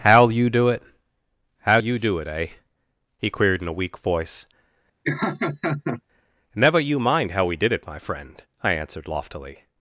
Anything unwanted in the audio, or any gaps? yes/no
yes